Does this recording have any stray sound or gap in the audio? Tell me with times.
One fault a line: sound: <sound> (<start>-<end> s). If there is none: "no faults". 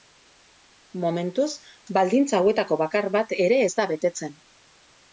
no faults